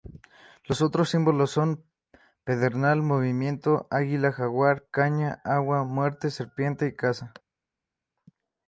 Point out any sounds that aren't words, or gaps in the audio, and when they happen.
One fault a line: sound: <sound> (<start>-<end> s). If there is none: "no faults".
no faults